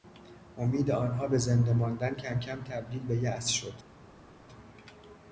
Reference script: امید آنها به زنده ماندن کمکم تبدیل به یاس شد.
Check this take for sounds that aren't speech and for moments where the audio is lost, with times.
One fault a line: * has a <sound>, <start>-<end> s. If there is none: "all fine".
all fine